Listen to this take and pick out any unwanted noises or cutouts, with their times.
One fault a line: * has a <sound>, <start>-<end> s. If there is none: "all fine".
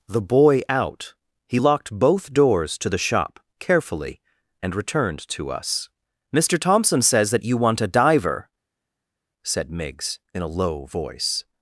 all fine